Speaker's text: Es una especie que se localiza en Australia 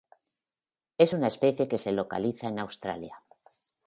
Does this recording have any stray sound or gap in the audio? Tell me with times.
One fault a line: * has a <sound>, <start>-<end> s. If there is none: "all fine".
all fine